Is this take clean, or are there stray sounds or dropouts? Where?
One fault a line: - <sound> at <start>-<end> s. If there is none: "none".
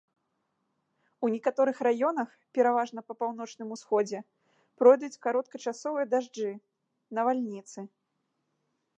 none